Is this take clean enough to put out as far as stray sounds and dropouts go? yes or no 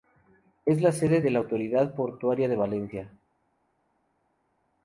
yes